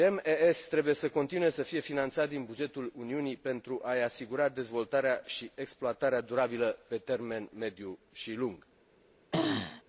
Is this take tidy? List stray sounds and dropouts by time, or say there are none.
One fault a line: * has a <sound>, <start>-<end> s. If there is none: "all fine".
* has a throat clearing, 9.3-9.8 s